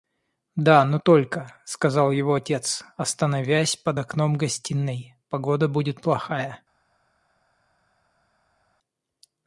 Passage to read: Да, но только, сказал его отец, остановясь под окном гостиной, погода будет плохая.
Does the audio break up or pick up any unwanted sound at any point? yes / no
no